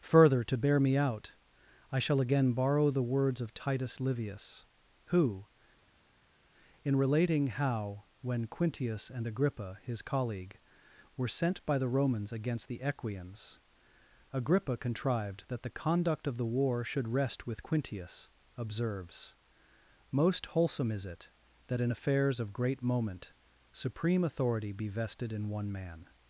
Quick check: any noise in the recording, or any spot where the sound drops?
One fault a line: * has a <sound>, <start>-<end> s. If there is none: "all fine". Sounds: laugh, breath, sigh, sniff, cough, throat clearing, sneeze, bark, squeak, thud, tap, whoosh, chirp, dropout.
all fine